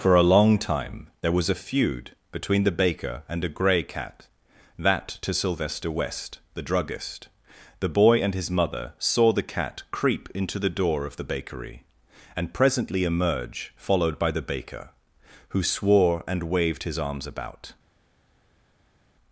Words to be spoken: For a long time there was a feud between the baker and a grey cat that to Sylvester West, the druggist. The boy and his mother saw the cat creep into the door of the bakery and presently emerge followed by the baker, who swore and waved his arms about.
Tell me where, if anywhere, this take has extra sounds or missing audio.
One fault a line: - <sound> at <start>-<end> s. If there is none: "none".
none